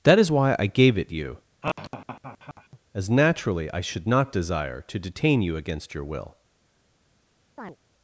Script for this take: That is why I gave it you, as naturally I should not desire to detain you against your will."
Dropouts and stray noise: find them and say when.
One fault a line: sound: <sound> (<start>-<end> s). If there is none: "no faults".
sound: laugh (1.6-2.8 s)
sound: chirp (7.6-7.8 s)